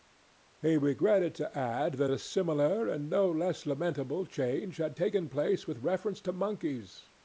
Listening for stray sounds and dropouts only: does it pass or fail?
pass